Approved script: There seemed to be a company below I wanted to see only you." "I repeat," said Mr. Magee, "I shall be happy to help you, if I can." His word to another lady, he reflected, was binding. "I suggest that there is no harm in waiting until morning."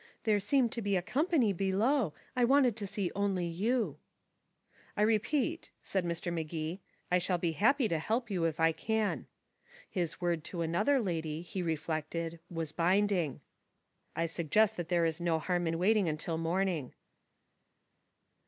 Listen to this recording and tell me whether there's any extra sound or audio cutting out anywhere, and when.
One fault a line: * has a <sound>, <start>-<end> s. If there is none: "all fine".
all fine